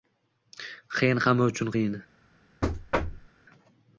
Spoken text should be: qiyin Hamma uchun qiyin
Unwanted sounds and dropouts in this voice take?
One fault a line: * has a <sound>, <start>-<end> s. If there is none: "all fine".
* has a thud, 2.6-3.3 s